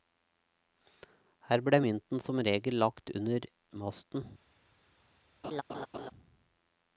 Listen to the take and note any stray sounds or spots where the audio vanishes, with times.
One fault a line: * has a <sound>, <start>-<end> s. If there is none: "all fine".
* has a laugh, 5.4-6.1 s